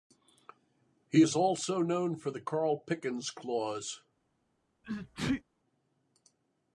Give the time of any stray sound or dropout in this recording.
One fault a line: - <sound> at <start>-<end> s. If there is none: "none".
- sneeze at 4.8-5.4 s